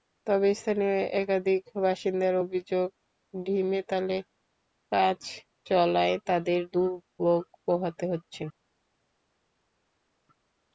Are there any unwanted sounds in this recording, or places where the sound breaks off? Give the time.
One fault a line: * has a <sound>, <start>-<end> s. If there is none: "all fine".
all fine